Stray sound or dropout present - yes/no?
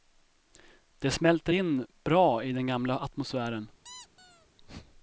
yes